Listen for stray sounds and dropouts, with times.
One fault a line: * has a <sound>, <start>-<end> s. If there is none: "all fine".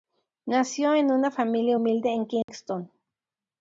* has a dropout, 2.4-2.5 s